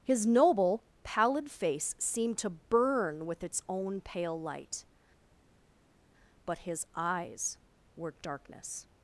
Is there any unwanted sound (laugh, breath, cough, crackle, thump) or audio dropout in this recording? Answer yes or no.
no